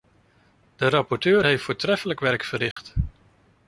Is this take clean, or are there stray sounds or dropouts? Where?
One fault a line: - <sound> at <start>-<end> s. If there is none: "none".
- dropout at 2.7-2.8 s